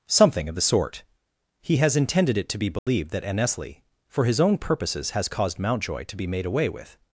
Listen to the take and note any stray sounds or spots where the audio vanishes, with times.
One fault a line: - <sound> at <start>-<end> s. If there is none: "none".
- dropout at 2.8-2.9 s